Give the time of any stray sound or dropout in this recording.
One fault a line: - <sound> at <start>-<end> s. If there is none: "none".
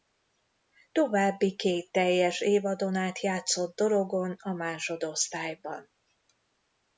none